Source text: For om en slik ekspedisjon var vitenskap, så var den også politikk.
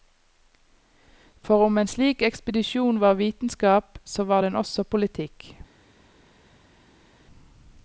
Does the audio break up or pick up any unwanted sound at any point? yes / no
no